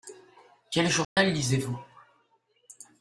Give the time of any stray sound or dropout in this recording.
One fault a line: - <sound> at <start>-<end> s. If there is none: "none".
- dropout at 1.0-1.2 s